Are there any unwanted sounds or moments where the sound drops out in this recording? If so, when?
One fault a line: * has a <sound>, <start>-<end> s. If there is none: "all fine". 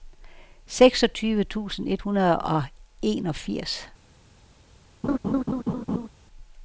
* has a laugh, 5.0-6.1 s